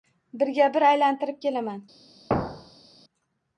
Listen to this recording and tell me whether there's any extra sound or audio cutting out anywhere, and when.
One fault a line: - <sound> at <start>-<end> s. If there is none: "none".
- thud at 2.3-3.0 s